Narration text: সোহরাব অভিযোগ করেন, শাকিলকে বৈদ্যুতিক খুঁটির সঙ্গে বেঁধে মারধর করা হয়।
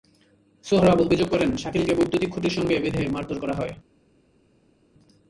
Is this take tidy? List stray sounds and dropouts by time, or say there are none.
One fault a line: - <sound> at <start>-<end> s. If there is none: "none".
none